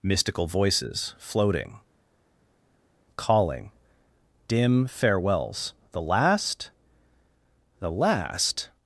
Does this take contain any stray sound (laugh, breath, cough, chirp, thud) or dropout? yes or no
no